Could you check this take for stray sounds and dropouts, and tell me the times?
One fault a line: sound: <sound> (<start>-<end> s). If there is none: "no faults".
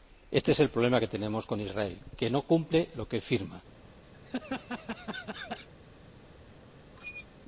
sound: laugh (4.1-5.7 s)
sound: squeak (7.0-7.3 s)